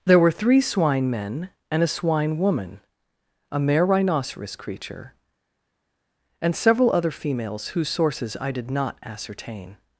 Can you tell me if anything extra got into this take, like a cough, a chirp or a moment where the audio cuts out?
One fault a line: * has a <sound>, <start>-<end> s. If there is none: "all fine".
all fine